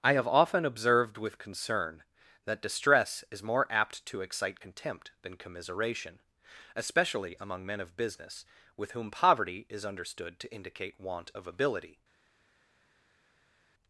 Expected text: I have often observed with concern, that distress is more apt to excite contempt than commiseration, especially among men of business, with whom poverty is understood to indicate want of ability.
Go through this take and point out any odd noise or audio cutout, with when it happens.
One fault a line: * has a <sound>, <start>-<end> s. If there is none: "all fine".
all fine